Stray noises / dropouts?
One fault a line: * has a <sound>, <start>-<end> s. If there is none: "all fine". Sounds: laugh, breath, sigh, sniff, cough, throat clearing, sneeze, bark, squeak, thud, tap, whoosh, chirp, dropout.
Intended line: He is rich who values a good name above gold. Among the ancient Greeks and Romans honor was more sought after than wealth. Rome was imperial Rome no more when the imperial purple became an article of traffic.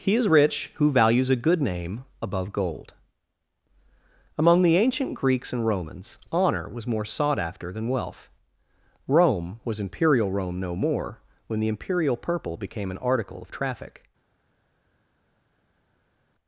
all fine